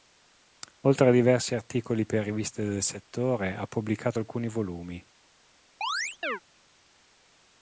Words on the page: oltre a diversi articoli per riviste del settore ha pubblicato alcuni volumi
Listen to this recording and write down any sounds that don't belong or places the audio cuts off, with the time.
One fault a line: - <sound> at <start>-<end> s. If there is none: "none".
- chirp at 5.8-6.4 s